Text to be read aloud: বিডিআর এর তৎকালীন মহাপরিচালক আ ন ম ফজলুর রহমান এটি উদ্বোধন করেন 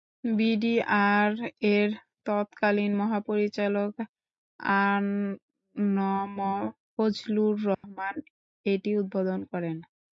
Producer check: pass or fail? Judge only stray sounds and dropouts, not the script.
fail